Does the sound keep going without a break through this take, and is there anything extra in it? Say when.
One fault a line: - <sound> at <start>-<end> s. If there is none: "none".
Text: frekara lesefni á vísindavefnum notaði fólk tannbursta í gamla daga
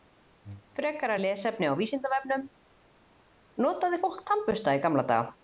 none